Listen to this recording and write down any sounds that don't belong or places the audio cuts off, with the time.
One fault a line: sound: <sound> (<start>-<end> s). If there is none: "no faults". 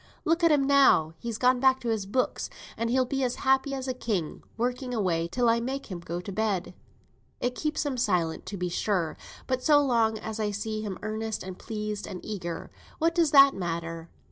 no faults